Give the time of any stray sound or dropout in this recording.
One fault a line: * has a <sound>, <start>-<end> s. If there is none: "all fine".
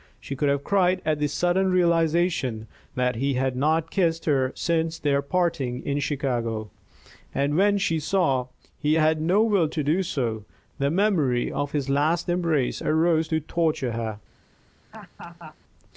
* has a laugh, 14.9-15.6 s